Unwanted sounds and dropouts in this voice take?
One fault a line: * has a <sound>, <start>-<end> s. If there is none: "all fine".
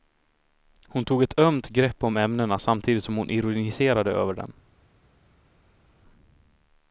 all fine